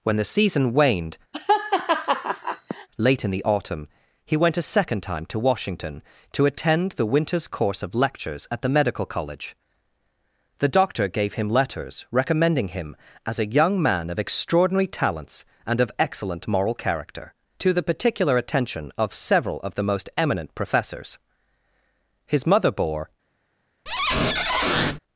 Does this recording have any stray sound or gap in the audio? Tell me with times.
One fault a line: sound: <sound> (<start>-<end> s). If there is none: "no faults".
sound: laugh (1.3-2.9 s)
sound: squeak (23.9-25.0 s)